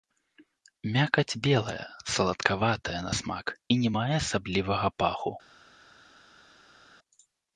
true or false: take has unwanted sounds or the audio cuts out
false